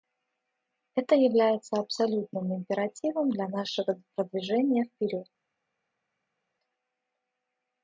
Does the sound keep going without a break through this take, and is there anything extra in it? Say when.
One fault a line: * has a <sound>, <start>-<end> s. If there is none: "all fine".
all fine